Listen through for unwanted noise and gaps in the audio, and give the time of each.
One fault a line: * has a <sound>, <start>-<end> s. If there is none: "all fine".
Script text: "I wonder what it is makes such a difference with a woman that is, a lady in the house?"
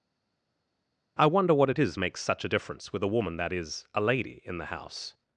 all fine